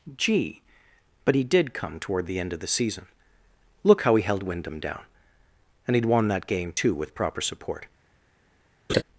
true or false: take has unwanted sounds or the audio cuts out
true